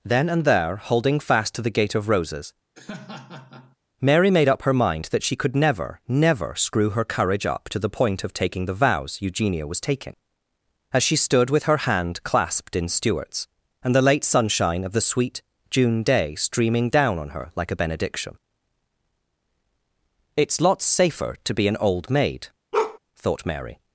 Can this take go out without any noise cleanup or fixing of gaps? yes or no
no